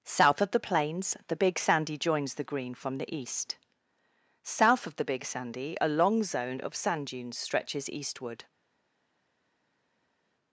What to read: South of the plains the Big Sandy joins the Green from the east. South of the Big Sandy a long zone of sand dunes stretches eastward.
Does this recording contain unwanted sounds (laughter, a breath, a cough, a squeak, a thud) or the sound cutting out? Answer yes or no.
no